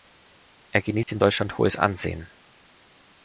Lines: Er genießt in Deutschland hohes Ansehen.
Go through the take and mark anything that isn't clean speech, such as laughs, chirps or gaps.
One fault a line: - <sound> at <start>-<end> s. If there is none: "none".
- dropout at 1.0-1.1 s